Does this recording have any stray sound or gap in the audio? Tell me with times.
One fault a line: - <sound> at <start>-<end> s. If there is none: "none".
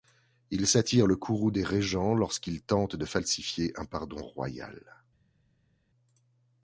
none